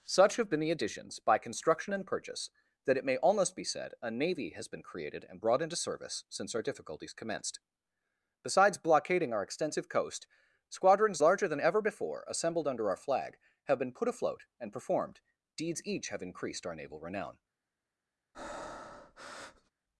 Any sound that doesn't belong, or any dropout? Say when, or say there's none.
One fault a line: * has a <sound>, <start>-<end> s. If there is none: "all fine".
* has a breath, 18.3-19.7 s